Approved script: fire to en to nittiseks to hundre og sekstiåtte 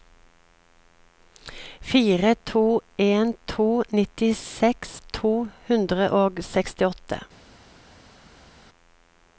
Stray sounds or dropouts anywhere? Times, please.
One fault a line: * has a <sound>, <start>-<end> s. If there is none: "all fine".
all fine